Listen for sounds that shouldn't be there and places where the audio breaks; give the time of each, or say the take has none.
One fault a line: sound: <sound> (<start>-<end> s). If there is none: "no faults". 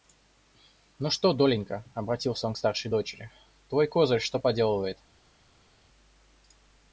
no faults